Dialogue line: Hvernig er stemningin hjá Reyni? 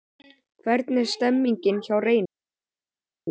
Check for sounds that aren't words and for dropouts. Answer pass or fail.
pass